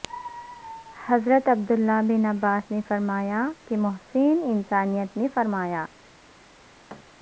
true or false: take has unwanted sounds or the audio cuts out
true